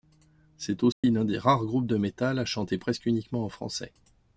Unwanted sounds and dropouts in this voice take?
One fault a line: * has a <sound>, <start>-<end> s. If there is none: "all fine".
* has a dropout, 0.9-1.0 s